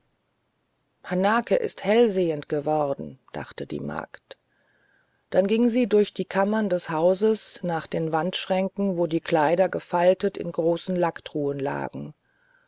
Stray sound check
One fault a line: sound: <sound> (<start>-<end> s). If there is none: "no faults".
no faults